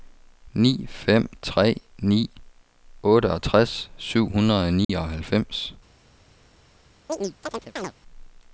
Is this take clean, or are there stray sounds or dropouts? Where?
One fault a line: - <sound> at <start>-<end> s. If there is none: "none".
- dropout at 4.8-4.9 s
- chirp at 7.1-7.9 s